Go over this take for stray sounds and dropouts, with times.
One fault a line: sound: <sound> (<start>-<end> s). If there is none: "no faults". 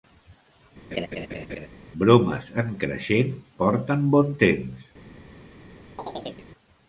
sound: laugh (0.9-1.7 s)
sound: chirp (6.0-6.5 s)